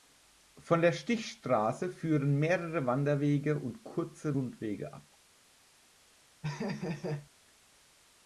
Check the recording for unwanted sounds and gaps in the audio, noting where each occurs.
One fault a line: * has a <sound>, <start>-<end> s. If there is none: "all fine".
* has a laugh, 6.4-7.3 s